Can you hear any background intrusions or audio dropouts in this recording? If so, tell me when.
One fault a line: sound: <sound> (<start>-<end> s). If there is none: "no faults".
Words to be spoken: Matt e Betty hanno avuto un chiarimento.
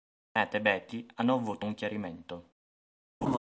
sound: laugh (3.2-3.4 s)